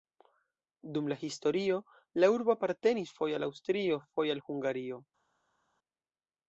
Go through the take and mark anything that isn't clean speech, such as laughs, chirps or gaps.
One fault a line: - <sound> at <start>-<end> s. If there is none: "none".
none